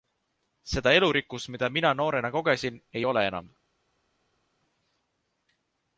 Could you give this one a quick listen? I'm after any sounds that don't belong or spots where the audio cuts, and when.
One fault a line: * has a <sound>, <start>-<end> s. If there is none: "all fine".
all fine